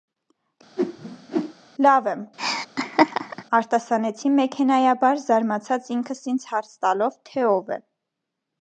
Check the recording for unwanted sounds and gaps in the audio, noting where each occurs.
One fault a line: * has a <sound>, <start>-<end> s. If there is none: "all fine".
* has a whoosh, 0.8-1.5 s
* has a laugh, 2.4-3.4 s